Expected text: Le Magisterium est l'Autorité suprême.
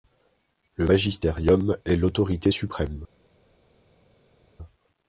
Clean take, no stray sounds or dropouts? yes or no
yes